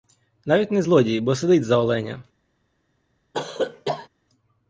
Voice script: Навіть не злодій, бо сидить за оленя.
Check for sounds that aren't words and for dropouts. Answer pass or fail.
fail